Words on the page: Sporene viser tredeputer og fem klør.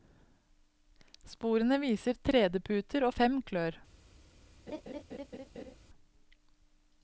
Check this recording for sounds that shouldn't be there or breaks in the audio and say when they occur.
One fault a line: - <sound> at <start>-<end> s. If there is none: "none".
- laugh at 4.7-5.8 s